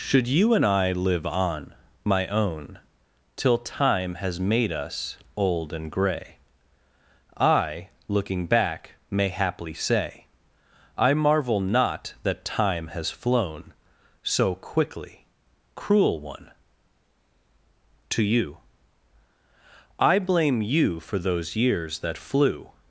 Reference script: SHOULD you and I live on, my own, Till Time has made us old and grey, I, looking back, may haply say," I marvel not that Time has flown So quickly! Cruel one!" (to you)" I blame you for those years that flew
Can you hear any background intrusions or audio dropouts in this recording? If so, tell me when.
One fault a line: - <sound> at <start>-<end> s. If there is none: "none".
none